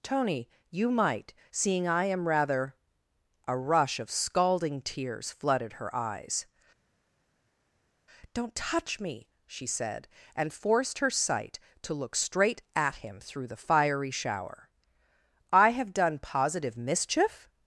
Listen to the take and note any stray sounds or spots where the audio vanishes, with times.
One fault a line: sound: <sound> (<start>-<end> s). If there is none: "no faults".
no faults